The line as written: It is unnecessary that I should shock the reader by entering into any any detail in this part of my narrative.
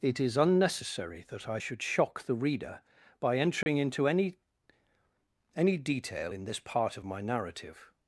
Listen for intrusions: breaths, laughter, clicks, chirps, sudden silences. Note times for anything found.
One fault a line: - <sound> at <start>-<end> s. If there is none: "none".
- dropout at 3.6-3.7 s